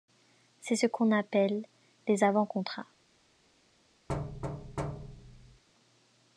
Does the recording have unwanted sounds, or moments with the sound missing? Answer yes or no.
yes